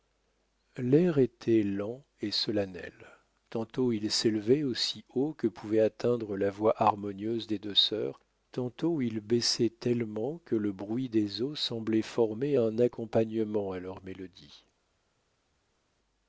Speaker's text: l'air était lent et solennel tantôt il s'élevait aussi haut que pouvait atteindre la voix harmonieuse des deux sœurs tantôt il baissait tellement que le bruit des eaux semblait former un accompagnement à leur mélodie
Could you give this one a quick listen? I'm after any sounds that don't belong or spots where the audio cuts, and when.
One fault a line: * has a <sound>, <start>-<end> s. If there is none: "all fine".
all fine